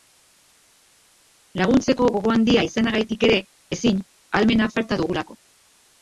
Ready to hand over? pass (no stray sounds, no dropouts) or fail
pass